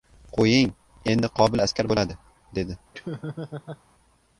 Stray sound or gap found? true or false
true